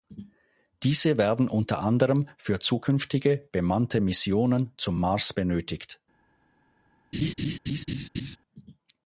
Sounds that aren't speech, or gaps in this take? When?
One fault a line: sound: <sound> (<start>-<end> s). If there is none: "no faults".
sound: laugh (7.1-8.4 s)